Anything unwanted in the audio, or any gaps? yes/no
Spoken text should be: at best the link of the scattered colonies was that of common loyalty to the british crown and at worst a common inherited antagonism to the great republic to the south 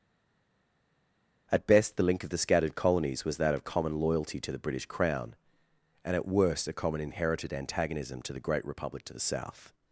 no